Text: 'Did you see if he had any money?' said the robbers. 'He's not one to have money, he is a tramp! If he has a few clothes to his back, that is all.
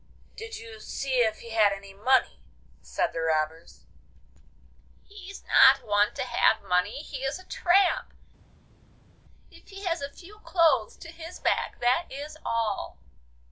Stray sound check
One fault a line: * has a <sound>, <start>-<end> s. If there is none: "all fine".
all fine